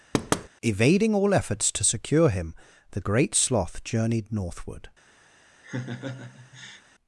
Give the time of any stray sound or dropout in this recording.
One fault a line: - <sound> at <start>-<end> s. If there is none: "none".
- thud at 0.1-0.5 s
- laugh at 5.6-6.8 s